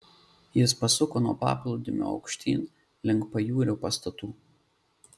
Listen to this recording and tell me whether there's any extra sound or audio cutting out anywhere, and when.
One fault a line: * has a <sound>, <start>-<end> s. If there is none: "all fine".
all fine